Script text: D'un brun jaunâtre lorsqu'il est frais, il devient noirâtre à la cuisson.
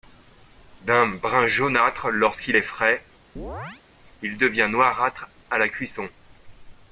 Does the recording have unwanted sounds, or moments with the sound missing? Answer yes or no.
yes